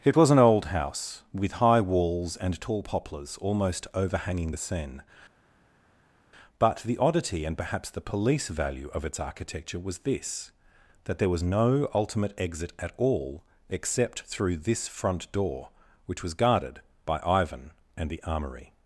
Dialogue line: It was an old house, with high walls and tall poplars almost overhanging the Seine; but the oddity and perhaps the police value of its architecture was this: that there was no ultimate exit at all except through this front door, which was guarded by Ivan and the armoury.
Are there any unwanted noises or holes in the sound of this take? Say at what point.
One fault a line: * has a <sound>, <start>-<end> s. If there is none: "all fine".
all fine